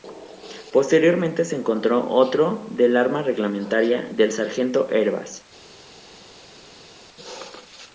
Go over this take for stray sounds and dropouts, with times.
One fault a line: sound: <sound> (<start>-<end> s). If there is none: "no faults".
no faults